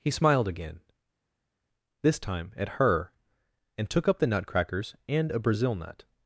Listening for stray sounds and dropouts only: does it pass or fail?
pass